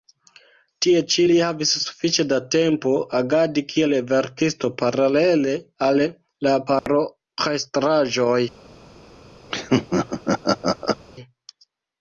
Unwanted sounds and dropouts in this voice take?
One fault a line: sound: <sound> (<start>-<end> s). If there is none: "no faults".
sound: dropout (6.8-6.9 s)
sound: laugh (9.5-11.0 s)